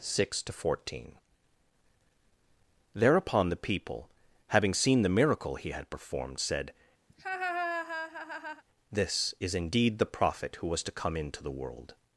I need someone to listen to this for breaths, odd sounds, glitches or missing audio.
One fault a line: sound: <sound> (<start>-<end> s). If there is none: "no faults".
sound: laugh (7.1-8.6 s)